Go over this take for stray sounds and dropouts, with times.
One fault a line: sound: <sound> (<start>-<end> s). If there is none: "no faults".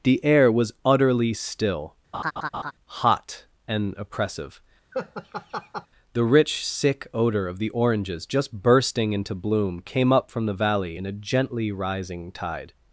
sound: laugh (2.1-2.7 s)
sound: laugh (4.9-5.9 s)